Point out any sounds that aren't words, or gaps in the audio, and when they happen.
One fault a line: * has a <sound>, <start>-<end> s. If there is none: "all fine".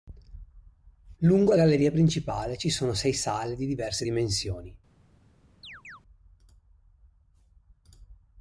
* has a chirp, 5.6-6.0 s